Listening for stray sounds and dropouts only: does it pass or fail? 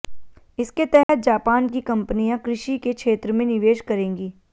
fail